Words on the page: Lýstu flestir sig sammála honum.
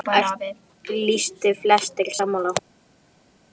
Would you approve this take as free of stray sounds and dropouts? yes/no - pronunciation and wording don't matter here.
yes